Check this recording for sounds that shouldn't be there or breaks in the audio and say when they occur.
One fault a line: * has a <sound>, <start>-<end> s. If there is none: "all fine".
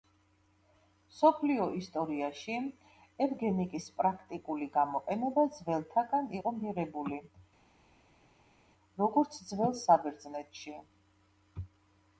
all fine